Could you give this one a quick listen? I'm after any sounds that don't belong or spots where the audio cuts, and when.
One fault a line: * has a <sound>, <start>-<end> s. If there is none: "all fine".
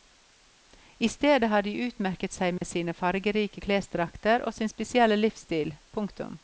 * has a dropout, 2.6-2.6 s